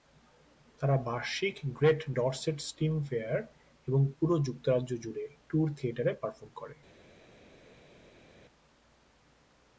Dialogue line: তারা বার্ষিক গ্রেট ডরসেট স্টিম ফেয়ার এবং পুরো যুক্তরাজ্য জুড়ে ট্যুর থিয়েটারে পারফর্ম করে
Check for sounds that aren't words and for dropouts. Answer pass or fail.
pass